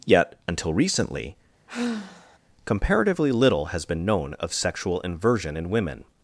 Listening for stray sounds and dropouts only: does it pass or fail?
fail